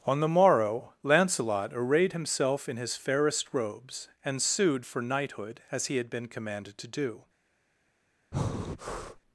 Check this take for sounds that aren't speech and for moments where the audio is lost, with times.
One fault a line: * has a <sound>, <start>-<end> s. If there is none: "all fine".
* has a breath, 8.3-9.2 s